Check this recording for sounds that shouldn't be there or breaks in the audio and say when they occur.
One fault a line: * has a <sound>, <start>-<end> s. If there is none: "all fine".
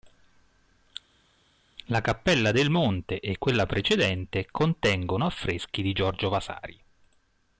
all fine